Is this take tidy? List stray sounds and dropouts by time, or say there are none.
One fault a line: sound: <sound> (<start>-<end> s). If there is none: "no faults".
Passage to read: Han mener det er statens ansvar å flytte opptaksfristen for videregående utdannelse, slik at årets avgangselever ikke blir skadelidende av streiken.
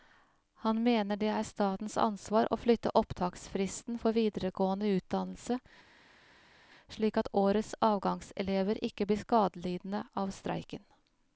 no faults